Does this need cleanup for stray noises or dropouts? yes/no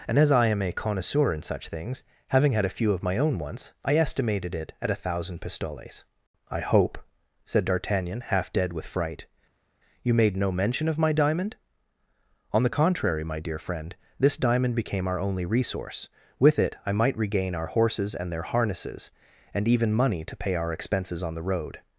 no